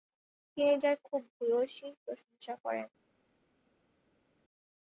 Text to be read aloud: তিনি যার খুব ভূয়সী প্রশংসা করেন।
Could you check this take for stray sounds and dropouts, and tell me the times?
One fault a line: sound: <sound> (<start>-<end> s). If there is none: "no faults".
no faults